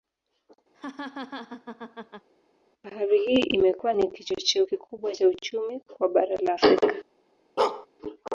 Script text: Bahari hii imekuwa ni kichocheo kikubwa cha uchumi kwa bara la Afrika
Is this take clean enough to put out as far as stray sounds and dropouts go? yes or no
no